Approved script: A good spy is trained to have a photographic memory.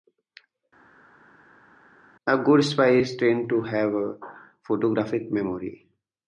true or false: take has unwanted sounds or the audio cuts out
false